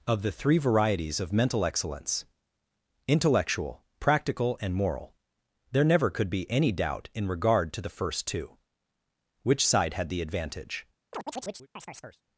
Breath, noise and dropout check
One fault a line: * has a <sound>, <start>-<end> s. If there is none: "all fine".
* has a chirp, 11.1-12.2 s